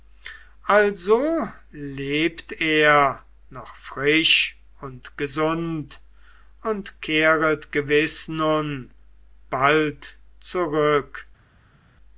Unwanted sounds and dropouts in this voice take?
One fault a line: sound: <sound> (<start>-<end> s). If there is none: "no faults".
no faults